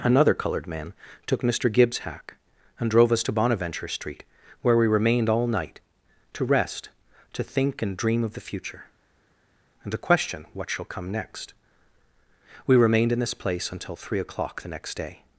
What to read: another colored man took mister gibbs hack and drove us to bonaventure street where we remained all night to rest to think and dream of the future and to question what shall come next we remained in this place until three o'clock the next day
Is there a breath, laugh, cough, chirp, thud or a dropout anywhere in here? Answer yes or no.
no